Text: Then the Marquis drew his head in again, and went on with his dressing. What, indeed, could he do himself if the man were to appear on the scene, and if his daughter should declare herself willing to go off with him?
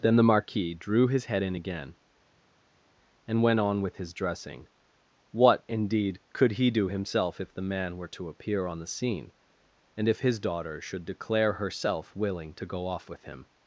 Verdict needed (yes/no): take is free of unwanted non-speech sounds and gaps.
yes